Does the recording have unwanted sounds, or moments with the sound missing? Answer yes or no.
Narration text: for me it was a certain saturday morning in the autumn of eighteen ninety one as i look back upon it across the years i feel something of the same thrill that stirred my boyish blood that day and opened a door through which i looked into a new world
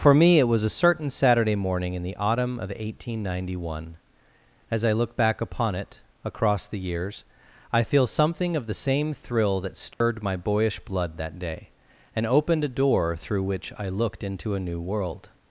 yes